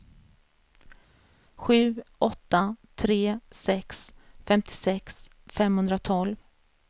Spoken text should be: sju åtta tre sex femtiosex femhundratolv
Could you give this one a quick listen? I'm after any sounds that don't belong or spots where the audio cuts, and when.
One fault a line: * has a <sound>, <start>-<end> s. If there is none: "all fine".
all fine